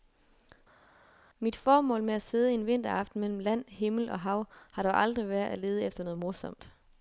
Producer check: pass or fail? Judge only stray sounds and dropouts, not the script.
pass